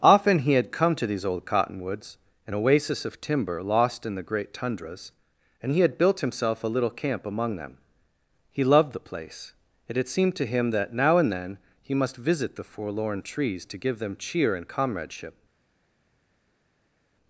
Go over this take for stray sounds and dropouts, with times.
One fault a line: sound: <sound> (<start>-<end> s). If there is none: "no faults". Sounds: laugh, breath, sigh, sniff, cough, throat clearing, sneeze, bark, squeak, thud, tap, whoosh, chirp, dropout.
no faults